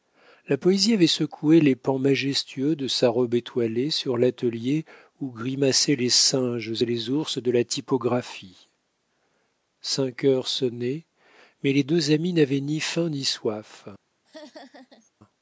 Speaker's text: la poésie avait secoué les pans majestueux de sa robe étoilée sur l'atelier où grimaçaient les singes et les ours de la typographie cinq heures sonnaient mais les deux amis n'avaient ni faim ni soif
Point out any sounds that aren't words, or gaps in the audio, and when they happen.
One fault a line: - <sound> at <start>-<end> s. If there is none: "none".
- laugh at 14.2-15.1 s